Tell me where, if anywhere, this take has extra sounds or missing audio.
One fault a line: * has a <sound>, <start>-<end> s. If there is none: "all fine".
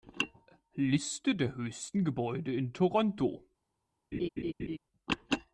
* has a laugh, 4.1-4.8 s